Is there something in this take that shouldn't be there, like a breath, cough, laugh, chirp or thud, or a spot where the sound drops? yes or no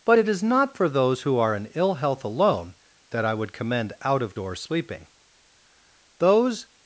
no